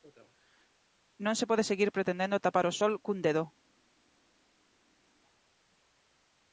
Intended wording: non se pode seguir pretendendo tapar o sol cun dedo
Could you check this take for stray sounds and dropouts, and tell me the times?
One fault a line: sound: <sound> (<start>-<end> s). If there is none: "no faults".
no faults